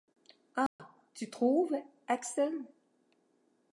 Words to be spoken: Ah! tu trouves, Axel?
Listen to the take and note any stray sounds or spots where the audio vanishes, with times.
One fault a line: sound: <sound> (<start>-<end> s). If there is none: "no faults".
sound: dropout (0.7-0.8 s)